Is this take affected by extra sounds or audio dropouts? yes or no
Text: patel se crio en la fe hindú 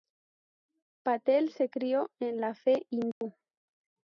yes